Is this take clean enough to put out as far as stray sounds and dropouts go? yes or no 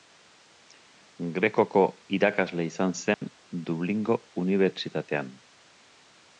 no